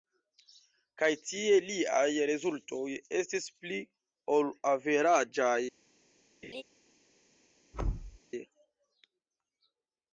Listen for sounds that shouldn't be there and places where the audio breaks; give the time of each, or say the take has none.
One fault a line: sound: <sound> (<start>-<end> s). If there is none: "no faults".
sound: laugh (6.4-6.6 s)
sound: thud (7.7-8.2 s)